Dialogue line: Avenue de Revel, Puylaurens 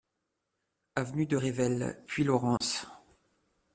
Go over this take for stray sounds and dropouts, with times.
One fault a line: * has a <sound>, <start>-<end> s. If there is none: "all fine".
* has a dropout, 2.6-2.6 s